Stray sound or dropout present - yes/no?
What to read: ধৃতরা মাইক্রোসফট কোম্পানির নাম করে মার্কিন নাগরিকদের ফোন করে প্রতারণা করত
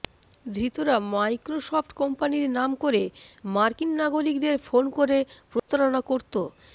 yes